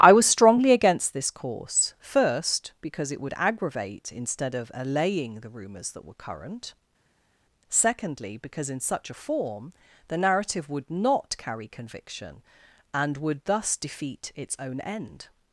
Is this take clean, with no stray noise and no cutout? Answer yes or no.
yes